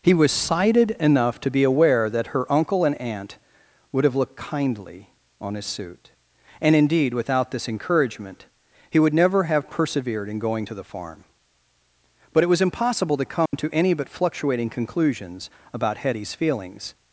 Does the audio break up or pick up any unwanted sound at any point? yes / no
yes